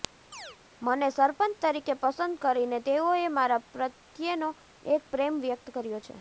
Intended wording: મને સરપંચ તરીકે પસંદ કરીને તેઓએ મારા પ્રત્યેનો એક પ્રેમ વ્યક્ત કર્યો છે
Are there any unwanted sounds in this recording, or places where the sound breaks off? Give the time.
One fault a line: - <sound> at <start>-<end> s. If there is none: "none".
- chirp at 0.3-0.6 s